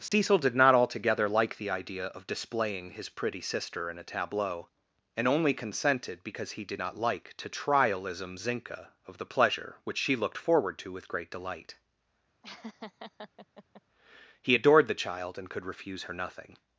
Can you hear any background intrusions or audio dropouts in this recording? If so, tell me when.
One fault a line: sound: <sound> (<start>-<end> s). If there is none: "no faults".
sound: dropout (0.1-0.1 s)
sound: laugh (12.4-13.8 s)